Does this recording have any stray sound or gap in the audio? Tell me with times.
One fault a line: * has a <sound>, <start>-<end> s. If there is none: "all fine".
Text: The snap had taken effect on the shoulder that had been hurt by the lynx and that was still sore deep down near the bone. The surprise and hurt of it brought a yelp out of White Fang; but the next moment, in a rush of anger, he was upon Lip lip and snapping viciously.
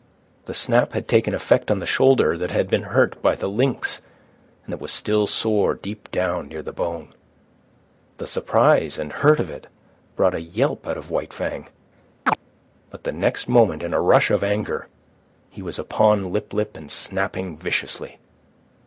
* has a chirp, 12.3-12.4 s